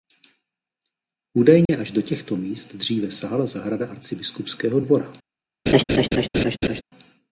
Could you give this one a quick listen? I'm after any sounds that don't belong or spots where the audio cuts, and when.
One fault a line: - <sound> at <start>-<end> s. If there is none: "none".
- dropout at 1.7-1.7 s
- laugh at 5.7-6.8 s